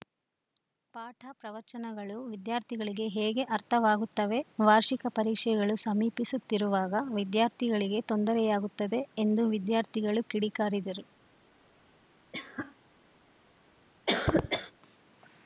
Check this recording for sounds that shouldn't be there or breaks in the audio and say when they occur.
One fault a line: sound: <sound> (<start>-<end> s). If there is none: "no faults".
sound: cough (12.3-12.8 s)
sound: cough (14.1-14.7 s)